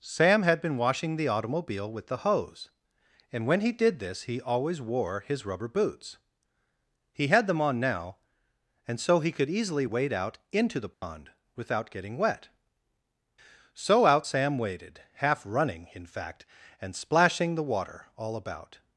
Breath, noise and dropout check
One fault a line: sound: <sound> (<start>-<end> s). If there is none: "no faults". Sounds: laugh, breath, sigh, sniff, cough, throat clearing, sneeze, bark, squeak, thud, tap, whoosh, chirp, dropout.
sound: dropout (10.9-11.0 s)